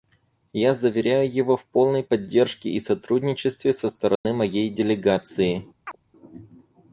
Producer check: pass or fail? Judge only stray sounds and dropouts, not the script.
fail